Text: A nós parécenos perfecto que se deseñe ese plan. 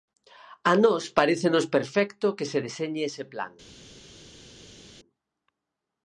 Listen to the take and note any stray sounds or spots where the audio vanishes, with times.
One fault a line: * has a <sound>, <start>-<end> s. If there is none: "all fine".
all fine